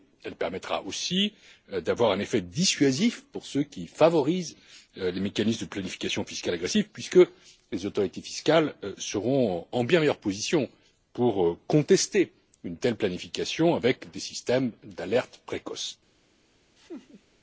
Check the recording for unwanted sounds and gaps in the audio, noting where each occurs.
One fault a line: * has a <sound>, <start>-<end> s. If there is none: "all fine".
* has a laugh, 16.8-17.2 s